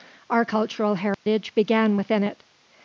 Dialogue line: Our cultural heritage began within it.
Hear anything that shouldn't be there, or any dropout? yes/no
yes